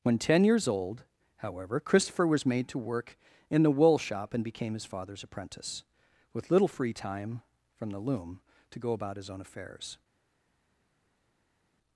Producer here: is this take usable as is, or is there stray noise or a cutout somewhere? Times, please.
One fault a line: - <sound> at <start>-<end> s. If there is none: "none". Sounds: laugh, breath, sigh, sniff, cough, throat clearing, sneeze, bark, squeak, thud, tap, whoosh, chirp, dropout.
none